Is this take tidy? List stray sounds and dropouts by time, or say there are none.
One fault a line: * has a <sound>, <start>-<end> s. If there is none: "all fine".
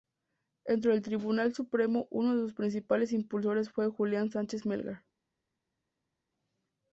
all fine